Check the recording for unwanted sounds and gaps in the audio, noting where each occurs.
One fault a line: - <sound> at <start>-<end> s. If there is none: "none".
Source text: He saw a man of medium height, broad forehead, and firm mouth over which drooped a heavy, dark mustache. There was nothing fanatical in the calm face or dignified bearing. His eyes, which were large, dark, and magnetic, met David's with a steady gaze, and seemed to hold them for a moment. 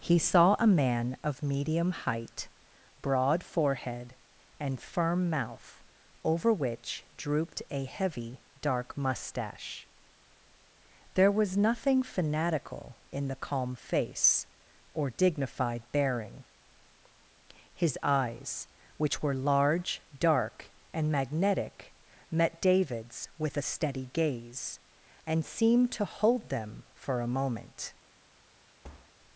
- thud at 28.8-29.1 s